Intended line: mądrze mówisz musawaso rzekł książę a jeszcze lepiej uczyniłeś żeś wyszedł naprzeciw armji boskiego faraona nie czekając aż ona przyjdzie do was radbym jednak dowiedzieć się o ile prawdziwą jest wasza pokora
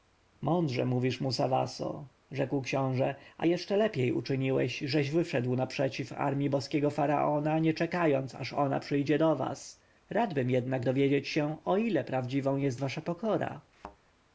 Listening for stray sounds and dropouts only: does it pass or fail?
fail